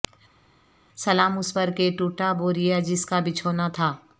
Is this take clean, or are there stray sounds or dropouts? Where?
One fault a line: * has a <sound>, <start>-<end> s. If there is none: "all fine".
all fine